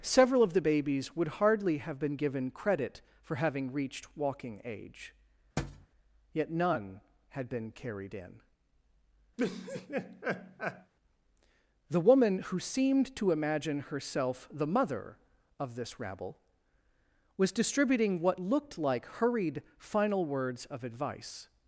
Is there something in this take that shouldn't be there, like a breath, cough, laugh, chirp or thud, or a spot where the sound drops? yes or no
yes